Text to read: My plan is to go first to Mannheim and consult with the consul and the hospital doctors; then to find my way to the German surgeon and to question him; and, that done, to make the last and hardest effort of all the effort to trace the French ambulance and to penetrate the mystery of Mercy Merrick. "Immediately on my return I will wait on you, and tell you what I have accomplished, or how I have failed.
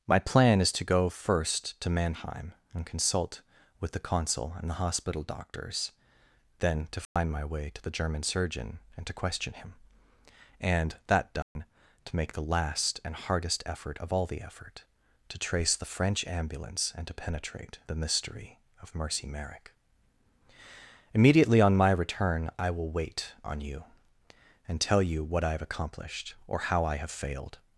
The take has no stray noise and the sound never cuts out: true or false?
false